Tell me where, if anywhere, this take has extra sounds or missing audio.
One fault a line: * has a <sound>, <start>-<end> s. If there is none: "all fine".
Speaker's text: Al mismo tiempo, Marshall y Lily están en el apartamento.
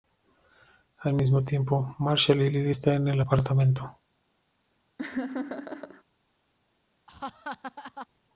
* has a laugh, 5.0-6.0 s
* has a laugh, 7.1-8.1 s